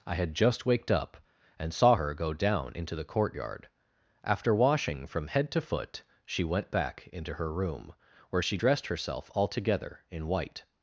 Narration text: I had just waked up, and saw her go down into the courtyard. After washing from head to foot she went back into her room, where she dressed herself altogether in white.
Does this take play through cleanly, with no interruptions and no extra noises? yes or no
yes